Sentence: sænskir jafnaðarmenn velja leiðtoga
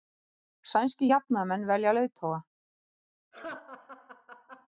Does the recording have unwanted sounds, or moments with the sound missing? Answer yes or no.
yes